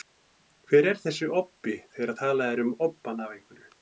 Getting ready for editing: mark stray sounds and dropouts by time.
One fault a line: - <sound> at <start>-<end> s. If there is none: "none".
none